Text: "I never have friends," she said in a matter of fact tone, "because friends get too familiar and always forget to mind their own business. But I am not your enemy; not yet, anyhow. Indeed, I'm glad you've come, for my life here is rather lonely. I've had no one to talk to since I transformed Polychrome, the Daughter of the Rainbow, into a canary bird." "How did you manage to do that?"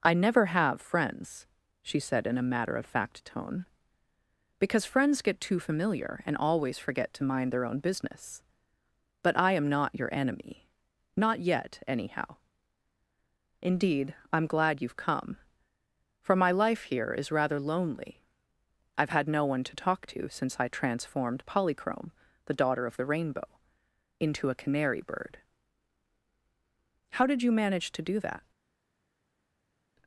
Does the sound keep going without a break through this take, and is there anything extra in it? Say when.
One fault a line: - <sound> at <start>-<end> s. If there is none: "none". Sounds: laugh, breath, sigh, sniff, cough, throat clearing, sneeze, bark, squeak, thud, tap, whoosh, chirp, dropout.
none